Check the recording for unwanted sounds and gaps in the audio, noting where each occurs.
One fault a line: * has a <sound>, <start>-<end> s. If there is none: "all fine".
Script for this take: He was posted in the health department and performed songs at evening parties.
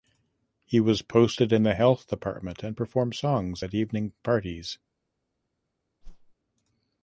* has a whoosh, 6.0-6.4 s